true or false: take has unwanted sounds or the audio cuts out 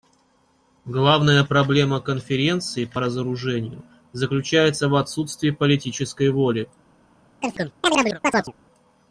true